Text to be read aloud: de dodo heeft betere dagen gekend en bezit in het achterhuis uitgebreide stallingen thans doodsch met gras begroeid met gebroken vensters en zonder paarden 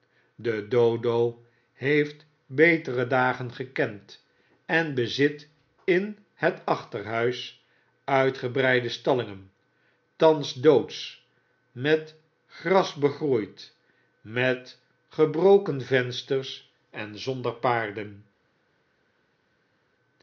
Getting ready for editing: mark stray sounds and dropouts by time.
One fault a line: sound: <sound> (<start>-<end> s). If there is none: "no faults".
no faults